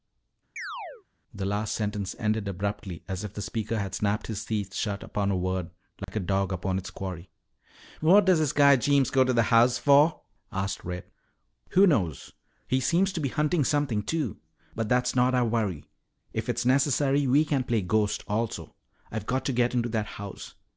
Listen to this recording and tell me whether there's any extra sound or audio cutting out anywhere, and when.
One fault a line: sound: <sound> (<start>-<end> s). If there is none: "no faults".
sound: chirp (0.6-1.0 s)
sound: dropout (6.0-6.1 s)